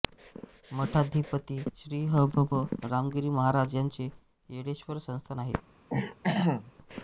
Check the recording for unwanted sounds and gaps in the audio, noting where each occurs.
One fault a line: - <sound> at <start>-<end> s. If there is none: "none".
- throat clearing at 5.9-6.7 s